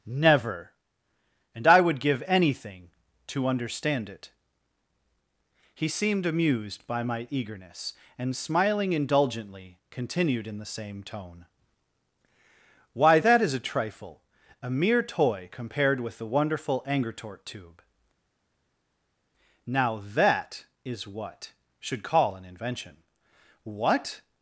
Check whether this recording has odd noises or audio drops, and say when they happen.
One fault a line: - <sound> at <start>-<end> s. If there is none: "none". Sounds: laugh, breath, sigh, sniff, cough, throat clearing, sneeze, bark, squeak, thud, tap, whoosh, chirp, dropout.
none